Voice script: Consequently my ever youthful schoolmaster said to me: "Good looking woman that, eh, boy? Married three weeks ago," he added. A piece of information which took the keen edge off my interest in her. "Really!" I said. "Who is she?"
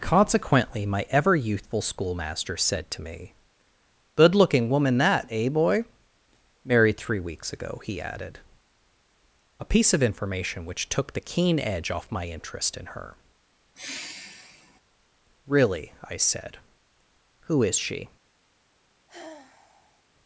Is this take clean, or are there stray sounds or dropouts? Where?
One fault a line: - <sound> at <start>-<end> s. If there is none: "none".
- sigh at 13.8-14.8 s
- sigh at 19.1-20.0 s